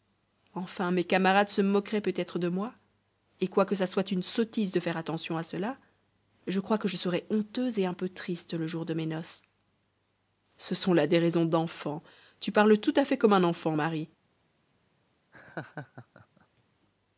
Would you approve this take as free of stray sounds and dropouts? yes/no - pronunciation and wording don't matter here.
no